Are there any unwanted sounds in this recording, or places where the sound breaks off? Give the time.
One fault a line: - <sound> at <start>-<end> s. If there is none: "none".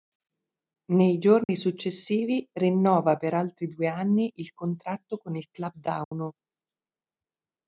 - dropout at 1.4-1.5 s
- dropout at 6.0-6.1 s